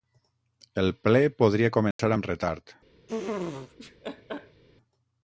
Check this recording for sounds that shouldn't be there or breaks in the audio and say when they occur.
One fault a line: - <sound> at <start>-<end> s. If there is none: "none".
- dropout at 1.9-2.0 s
- laugh at 3.1-4.6 s